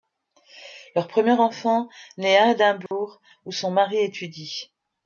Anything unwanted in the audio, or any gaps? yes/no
yes